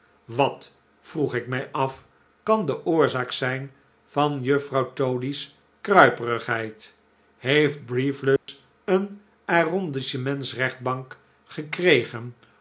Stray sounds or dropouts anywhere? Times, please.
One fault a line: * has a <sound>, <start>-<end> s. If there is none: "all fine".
* has a dropout, 8.4-8.5 s